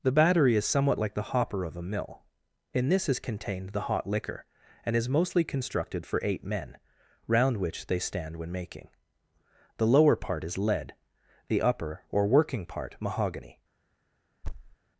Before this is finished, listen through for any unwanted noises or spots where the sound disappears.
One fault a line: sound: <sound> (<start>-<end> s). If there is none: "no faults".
sound: thud (14.4-14.8 s)